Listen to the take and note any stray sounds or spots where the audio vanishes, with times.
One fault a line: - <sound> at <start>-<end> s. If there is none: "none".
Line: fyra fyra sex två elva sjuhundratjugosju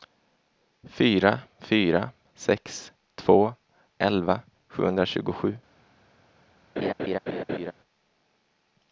- laugh at 6.8-7.7 s